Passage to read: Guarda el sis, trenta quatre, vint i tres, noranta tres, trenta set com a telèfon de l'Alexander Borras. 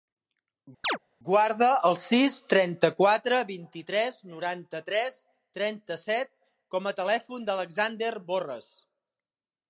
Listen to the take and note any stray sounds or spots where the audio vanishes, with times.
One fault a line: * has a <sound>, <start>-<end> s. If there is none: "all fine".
* has a chirp, 0.8-1.0 s